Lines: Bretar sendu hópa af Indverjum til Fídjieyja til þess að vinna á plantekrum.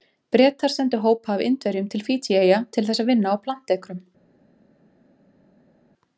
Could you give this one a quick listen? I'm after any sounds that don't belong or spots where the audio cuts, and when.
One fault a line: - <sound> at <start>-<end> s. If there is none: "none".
none